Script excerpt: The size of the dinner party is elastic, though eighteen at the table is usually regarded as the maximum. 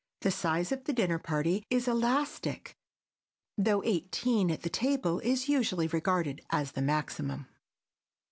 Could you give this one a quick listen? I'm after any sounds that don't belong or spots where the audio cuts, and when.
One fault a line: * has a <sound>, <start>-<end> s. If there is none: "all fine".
all fine